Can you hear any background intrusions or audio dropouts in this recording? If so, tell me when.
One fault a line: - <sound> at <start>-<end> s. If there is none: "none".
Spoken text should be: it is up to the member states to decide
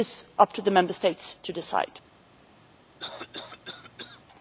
- cough at 3.0-4.2 s